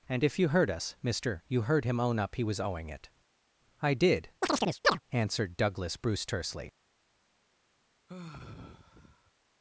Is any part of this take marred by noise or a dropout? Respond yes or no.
yes